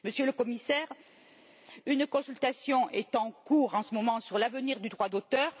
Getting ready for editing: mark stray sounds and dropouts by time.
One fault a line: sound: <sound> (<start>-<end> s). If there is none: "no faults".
no faults